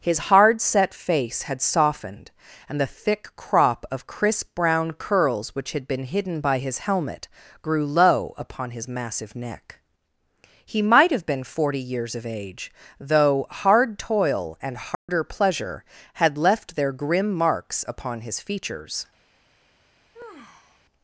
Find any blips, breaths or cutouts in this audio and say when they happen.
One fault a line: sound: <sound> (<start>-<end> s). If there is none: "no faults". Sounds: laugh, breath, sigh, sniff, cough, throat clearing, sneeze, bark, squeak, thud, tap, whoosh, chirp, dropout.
sound: dropout (14.9-15.1 s)
sound: sigh (20.1-20.8 s)